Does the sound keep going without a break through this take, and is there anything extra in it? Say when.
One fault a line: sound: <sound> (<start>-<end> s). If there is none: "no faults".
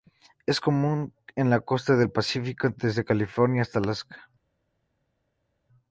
no faults